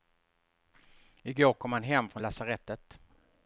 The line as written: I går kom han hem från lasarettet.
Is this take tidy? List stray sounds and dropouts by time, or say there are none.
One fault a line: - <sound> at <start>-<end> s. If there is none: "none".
none